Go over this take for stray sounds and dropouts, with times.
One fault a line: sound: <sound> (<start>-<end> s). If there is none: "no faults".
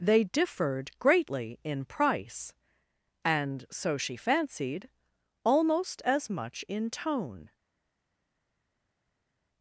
no faults